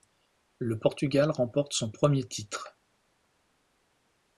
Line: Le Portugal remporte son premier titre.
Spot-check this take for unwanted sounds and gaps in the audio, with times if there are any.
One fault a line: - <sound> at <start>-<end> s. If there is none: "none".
none